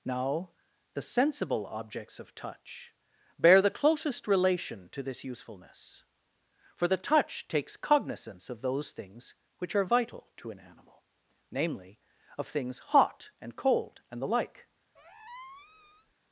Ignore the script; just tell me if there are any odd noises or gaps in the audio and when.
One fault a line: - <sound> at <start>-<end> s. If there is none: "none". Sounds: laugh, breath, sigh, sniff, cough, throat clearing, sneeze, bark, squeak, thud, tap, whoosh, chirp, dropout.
- squeak at 14.9-16.1 s